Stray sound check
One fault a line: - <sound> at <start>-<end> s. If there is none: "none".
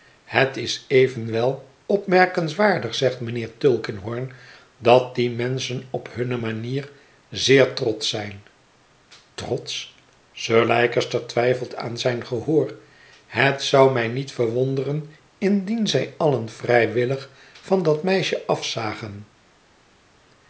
none